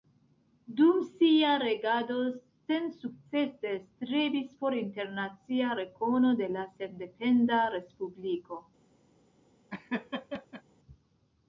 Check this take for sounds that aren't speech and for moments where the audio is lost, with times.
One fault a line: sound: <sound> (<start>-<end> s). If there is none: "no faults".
sound: laugh (9.7-10.6 s)